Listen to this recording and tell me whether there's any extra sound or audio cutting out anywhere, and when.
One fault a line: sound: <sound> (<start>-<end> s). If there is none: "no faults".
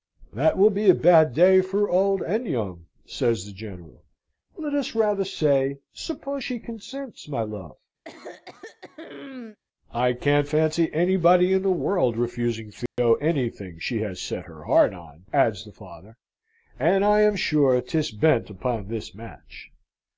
sound: throat clearing (8.0-9.6 s)
sound: dropout (12.9-13.0 s)